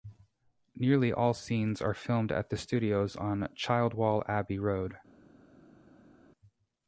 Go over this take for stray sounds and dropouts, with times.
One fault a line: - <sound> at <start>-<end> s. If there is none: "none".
none